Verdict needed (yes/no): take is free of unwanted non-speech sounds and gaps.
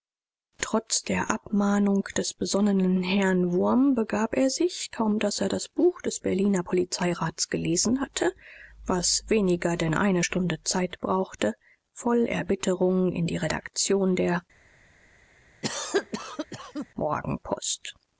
no